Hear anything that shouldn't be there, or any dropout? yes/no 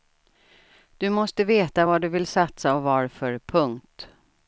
no